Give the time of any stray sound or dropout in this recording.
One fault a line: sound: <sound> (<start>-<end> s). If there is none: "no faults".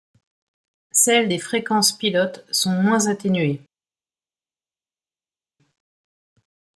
no faults